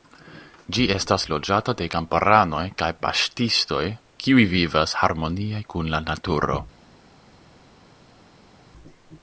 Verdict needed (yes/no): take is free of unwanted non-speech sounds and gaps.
yes